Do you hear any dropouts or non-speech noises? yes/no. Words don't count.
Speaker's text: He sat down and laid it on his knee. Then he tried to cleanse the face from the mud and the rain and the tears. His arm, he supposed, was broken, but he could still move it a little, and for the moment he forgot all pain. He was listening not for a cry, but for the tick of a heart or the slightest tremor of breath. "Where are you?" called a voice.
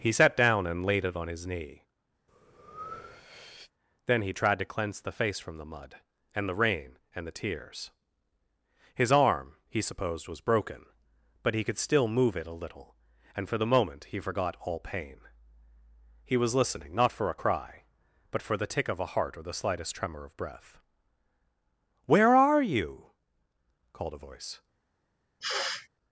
yes